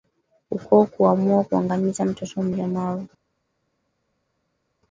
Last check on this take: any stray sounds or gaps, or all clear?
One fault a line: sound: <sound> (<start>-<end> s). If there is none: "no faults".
no faults